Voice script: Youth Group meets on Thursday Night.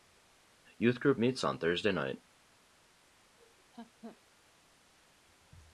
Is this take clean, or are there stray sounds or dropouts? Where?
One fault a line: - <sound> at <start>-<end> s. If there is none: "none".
- laugh at 3.4-4.2 s